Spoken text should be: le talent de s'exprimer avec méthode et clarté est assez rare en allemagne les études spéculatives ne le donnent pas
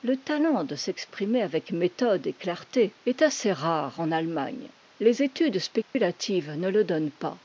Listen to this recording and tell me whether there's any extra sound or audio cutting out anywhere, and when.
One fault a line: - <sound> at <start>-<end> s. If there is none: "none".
- dropout at 5.8-5.9 s